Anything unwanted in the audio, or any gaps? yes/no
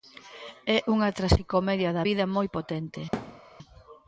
yes